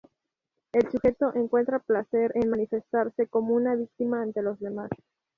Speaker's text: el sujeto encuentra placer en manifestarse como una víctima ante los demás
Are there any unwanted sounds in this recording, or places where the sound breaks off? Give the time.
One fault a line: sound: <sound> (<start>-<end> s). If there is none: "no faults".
no faults